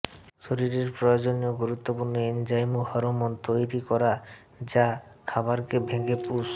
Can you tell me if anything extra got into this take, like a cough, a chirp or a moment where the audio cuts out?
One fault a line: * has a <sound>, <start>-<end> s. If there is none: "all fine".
all fine